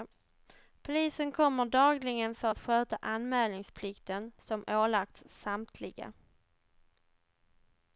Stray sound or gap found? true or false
false